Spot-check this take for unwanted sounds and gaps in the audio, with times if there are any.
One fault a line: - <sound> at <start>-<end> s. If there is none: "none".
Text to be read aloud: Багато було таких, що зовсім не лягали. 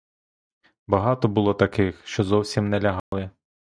- dropout at 3.0-3.1 s